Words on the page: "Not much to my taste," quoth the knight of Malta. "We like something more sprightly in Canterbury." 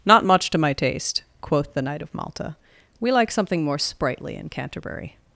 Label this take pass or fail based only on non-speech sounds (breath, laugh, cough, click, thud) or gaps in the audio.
pass